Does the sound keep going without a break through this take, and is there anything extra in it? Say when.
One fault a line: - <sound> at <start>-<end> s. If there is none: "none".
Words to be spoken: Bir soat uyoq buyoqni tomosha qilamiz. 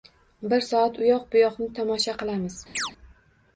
- chirp at 2.7-2.9 s